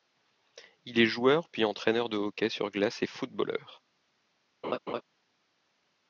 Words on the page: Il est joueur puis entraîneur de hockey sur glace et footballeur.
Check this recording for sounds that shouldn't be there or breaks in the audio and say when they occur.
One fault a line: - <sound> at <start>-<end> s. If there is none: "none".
- laugh at 4.6-5.0 s